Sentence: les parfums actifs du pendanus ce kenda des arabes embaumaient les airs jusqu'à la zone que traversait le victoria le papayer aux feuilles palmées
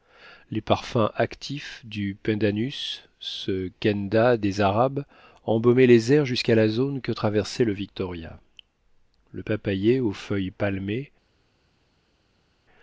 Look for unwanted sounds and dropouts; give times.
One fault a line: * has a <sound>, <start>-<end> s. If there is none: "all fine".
all fine